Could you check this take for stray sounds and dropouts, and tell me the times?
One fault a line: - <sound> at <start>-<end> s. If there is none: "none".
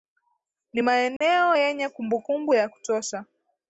- dropout at 1.2-1.2 s